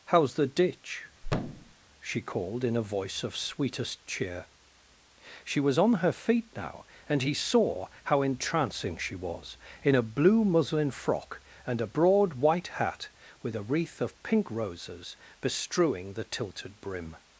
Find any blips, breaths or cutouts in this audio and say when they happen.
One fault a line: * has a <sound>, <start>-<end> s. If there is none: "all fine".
* has a thud, 1.2-1.7 s